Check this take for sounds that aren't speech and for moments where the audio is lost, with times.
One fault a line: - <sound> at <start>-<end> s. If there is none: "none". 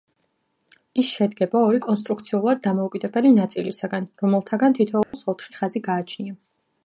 - dropout at 5.0-5.1 s